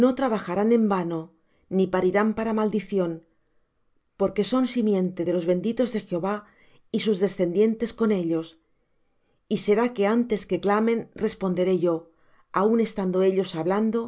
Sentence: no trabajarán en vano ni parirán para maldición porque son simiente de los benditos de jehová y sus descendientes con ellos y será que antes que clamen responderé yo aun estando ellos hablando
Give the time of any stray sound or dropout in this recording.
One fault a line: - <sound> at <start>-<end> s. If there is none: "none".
none